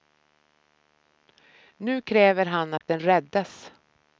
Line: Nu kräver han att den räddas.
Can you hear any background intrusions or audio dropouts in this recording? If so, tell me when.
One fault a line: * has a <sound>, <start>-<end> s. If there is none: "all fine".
* has a dropout, 2.8-2.8 s